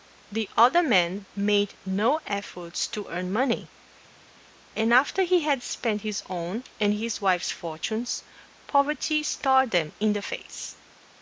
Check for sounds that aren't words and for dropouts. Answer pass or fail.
pass